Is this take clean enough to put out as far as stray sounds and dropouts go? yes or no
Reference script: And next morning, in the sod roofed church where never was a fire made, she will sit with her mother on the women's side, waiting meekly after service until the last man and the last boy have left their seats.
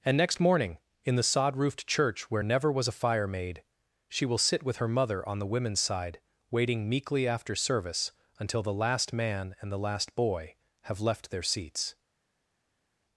yes